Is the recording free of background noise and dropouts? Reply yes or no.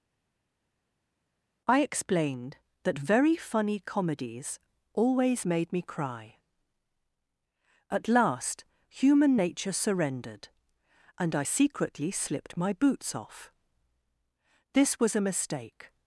yes